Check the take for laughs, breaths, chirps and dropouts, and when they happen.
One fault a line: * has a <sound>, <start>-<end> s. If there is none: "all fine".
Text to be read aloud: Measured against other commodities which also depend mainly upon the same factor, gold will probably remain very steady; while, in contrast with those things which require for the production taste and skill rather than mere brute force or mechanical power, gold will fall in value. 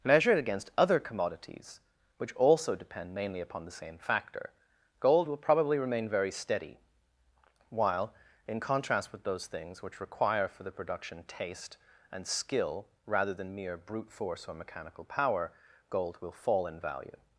all fine